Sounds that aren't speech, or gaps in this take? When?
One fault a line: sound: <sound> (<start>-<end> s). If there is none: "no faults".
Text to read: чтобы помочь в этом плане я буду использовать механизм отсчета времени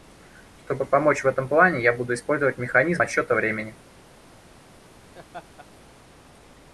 sound: laugh (5.1-5.7 s)